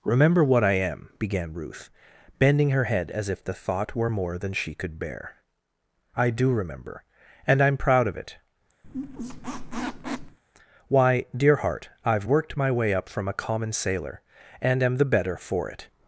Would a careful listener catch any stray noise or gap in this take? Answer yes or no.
yes